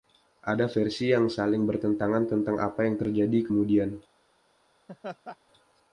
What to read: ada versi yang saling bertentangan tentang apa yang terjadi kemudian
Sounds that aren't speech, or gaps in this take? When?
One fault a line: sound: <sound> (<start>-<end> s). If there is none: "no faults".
sound: laugh (4.9-5.4 s)